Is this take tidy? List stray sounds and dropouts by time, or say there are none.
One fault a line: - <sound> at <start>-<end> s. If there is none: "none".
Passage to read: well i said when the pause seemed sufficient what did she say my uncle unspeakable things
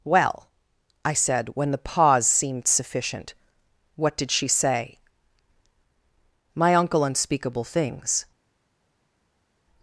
none